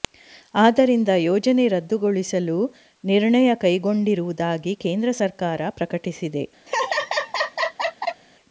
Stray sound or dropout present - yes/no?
yes